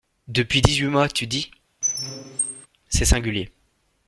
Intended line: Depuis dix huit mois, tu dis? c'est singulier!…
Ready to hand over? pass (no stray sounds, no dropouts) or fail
fail